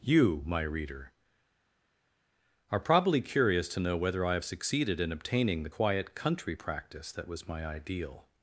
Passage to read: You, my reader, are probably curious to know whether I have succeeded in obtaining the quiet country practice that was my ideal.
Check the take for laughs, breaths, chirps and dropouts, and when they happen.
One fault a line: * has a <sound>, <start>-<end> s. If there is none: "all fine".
all fine